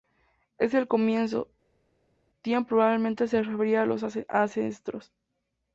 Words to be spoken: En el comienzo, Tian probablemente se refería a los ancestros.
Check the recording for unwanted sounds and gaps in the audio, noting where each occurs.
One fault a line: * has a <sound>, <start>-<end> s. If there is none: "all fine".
all fine